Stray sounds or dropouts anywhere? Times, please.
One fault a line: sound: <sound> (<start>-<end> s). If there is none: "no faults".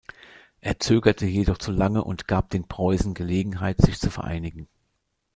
no faults